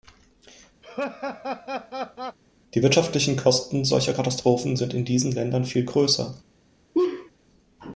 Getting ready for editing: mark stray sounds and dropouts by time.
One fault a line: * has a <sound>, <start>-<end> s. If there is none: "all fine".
* has a laugh, 0.8-2.4 s
* has a laugh, 6.9-7.3 s